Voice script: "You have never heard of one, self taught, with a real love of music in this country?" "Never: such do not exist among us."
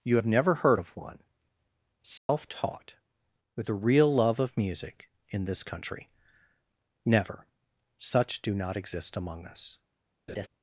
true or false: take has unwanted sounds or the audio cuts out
true